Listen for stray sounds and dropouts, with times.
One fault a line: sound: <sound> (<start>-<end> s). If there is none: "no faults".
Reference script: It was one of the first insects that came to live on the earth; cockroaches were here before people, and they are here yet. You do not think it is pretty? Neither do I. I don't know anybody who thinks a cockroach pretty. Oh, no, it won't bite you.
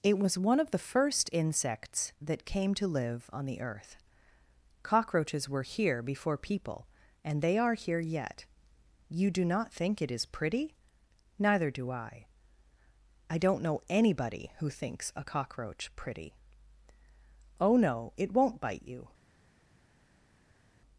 no faults